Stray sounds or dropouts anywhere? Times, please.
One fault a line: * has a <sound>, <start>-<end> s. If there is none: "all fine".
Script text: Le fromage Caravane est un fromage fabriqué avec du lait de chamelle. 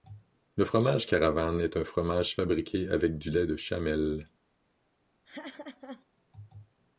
* has a laugh, 5.2-6.1 s